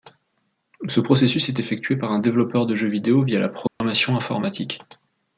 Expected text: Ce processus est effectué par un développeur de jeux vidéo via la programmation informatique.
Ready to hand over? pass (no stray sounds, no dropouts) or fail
fail